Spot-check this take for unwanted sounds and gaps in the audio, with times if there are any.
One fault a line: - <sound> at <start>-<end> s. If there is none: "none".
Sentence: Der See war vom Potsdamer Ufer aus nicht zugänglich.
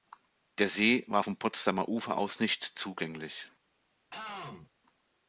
- throat clearing at 4.1-4.7 s